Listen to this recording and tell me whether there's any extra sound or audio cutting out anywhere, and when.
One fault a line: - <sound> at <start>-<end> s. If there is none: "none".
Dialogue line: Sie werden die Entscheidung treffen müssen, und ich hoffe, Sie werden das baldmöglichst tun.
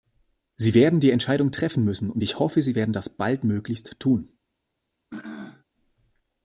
- throat clearing at 5.1-5.6 s